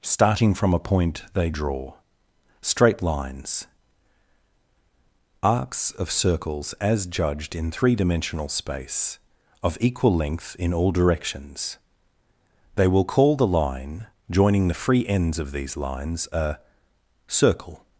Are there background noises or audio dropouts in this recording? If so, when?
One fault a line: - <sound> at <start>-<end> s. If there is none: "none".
none